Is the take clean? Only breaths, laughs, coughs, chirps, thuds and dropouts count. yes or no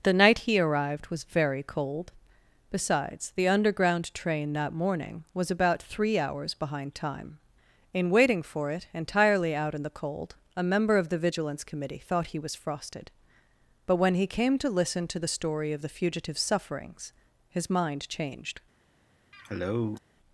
no